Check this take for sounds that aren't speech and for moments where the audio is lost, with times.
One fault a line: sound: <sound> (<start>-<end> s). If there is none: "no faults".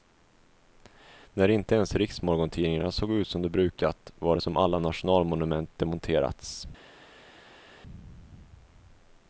no faults